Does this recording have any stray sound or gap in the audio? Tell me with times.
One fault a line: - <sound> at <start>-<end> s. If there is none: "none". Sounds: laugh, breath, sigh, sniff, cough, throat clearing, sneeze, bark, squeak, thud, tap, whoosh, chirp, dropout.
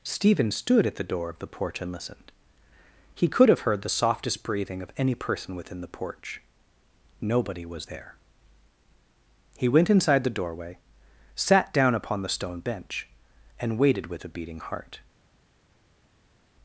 none